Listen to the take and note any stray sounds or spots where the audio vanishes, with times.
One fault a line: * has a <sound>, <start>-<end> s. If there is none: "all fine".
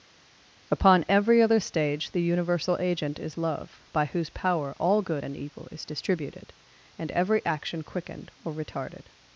all fine